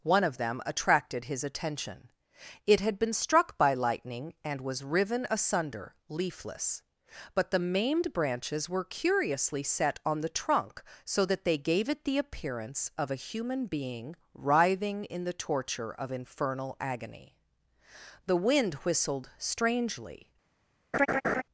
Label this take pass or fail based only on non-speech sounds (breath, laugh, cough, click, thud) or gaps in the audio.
fail